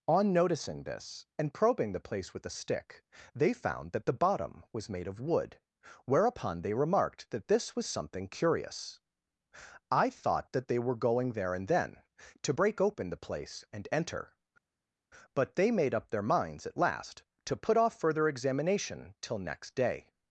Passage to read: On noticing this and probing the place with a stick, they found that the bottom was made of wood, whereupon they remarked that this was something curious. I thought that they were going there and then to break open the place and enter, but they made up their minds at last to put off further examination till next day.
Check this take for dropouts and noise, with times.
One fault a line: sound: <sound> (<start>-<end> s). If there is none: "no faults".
no faults